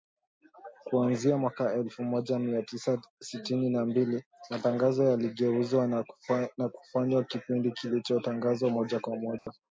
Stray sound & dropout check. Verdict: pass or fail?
fail